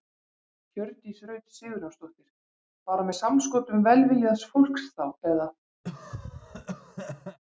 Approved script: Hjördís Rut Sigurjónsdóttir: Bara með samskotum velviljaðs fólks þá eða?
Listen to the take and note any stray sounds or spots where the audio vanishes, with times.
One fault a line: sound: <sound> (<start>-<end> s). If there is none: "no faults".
sound: cough (5.8-7.4 s)